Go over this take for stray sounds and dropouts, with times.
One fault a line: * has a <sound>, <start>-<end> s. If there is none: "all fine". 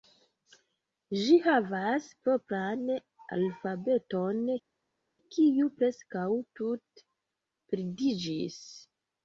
all fine